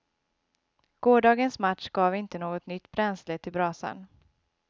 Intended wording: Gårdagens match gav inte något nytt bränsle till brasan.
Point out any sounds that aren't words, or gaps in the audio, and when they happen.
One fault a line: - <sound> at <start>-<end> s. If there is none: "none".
none